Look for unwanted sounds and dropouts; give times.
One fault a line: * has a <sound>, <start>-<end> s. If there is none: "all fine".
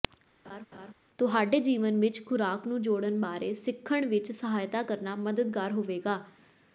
* has a laugh, 0.4-0.9 s